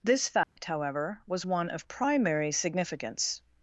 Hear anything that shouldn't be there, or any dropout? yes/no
yes